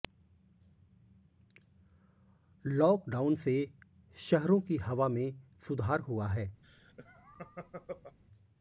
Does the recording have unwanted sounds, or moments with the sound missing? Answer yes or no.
yes